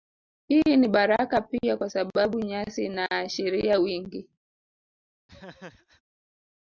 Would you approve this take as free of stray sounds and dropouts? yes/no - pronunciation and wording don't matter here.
no